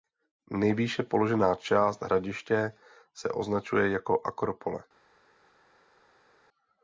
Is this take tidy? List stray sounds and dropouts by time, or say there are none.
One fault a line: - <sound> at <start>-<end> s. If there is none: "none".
none